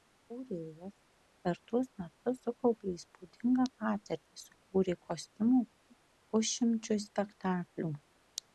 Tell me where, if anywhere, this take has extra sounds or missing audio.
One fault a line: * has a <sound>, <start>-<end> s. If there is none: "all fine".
all fine